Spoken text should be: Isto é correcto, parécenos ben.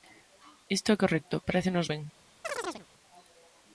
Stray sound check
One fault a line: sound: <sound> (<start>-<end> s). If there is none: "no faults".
sound: chirp (2.4-2.9 s)